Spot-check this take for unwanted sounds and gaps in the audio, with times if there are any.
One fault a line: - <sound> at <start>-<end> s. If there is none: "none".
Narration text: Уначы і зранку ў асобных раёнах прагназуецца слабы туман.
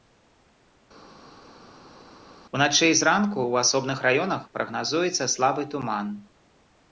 none